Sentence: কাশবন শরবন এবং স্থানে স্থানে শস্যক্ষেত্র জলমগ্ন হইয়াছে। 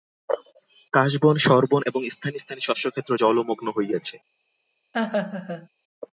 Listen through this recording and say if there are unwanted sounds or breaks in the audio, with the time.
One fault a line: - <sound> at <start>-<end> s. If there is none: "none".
- laugh at 4.9-5.7 s